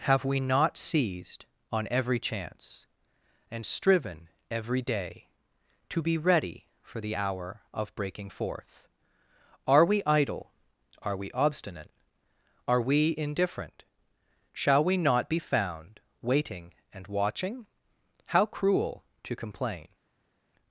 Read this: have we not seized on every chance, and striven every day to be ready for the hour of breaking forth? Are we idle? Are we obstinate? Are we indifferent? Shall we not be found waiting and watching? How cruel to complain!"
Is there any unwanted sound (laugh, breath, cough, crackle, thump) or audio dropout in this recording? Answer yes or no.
no